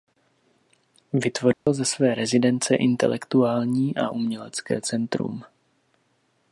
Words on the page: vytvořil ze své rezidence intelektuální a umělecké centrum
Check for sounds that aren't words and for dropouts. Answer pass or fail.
fail